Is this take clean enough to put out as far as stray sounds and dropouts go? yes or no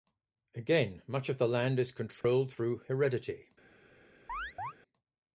no